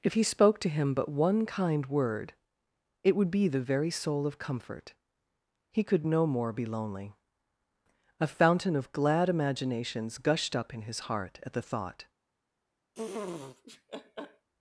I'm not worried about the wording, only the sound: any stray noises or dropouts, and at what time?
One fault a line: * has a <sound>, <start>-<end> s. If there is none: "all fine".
* has a laugh, 12.9-14.5 s